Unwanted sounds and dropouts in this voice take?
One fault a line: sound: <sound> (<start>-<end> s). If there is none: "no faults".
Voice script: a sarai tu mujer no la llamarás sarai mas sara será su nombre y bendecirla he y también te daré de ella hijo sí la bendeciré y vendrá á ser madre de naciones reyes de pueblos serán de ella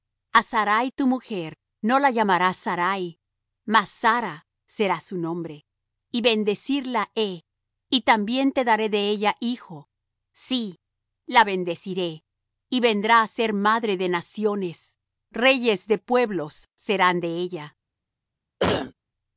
sound: cough (18.6-18.9 s)